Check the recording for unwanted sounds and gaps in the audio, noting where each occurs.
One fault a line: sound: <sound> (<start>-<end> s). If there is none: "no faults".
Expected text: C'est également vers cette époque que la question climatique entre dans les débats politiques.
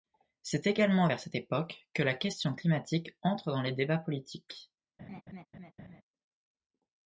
sound: laugh (5.0-6.0 s)